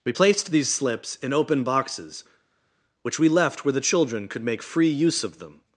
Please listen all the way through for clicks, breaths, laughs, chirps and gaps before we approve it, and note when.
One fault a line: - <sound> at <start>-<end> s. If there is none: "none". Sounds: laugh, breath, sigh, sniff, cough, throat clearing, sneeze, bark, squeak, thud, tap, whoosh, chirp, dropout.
none